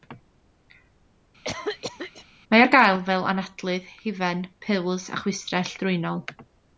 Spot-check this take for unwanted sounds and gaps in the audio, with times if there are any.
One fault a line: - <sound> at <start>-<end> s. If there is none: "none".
- cough at 1.4-2.3 s